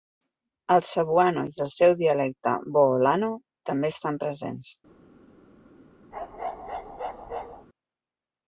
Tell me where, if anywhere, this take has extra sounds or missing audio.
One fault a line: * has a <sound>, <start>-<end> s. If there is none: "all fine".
* has a bark, 6.1-7.7 s